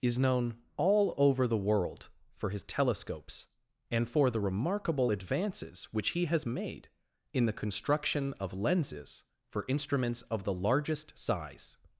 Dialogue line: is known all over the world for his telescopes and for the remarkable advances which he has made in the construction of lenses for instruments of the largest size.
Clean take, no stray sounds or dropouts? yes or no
yes